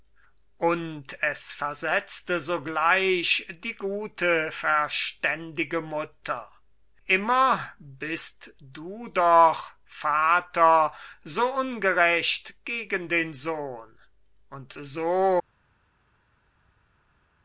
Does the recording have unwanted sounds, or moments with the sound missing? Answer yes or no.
no